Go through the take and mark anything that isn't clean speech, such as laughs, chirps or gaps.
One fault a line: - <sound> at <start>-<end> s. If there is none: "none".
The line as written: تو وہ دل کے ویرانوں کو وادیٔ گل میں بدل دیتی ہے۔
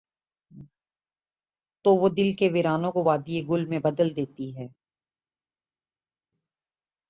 none